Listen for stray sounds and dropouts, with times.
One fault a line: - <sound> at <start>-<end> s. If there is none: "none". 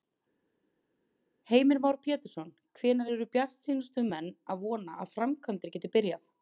none